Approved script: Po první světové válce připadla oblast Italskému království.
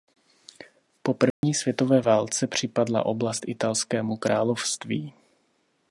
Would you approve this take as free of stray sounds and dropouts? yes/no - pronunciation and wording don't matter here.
no